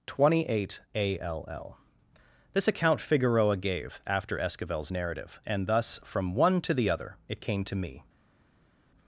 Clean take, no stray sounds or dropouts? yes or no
yes